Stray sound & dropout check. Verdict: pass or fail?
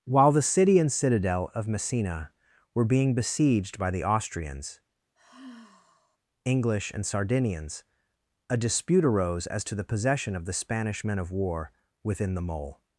fail